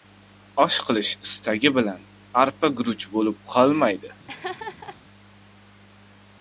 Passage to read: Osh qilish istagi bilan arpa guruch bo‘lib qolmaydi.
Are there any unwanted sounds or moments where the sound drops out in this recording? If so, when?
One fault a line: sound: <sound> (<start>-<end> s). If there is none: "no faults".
sound: laugh (4.3-5.0 s)